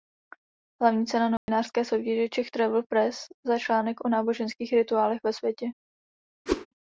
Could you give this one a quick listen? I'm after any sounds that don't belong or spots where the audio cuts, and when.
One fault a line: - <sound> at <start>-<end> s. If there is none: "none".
- dropout at 1.4-1.5 s
- whoosh at 6.5-6.7 s